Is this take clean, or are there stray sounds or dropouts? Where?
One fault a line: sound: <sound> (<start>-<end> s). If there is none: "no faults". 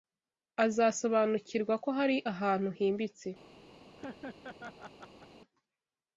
sound: laugh (4.0-5.3 s)